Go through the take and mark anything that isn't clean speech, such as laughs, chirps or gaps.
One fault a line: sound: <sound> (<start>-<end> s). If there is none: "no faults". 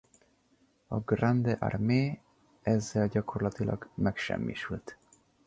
no faults